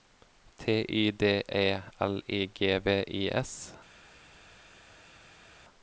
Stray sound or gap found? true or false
false